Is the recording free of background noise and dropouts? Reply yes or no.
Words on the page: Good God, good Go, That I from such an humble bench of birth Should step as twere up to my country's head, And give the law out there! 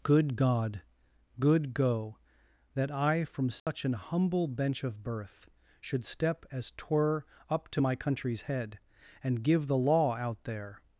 no